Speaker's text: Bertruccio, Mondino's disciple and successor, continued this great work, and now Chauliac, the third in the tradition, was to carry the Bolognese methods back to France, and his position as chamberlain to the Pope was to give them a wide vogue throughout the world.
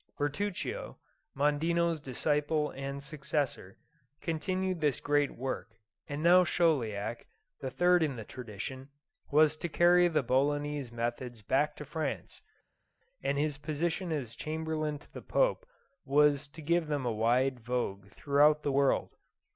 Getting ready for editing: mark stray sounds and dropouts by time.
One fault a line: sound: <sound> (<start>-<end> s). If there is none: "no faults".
no faults